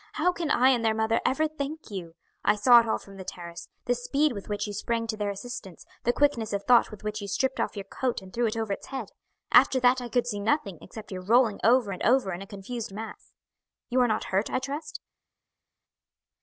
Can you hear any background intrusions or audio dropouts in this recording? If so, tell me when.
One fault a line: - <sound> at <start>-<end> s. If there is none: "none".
none